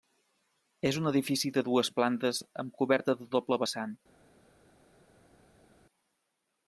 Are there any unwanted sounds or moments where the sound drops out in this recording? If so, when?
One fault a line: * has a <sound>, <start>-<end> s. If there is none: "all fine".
all fine